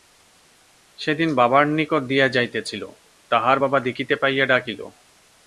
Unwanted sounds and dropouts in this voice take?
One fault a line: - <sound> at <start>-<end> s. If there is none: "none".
none